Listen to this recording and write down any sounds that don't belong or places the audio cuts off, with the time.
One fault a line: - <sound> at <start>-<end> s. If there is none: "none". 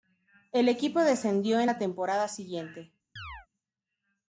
- chirp at 3.2-3.5 s